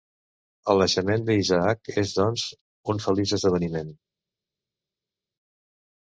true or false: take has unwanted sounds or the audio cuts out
false